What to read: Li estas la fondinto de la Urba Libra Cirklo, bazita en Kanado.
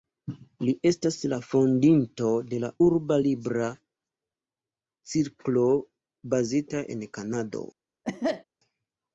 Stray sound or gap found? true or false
true